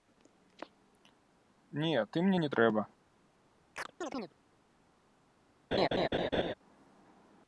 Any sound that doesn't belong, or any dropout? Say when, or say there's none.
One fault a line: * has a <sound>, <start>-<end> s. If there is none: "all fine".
* has a chirp, 3.8-4.3 s
* has a laugh, 5.7-6.5 s